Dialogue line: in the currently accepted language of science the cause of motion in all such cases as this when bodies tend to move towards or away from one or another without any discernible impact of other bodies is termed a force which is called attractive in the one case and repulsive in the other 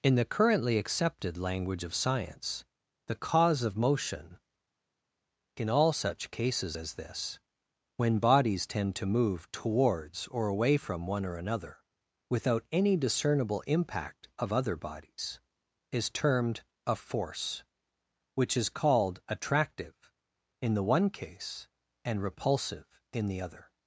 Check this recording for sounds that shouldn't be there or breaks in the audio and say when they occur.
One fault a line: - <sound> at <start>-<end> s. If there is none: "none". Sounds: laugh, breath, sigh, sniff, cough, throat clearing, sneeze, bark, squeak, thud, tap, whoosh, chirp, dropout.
none